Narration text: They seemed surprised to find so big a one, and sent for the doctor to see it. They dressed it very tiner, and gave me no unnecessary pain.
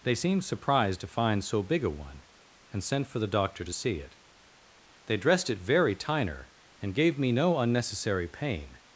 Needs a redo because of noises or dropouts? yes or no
no